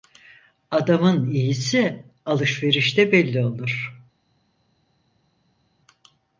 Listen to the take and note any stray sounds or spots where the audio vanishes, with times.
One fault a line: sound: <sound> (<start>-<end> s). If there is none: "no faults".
no faults